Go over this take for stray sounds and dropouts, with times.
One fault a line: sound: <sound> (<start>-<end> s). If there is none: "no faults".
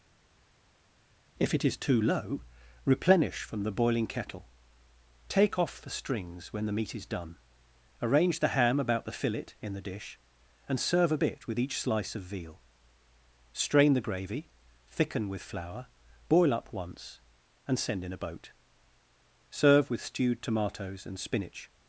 no faults